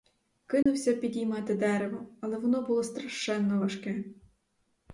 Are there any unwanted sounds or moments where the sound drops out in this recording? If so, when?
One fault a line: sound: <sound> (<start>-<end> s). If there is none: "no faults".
sound: dropout (0.6-0.7 s)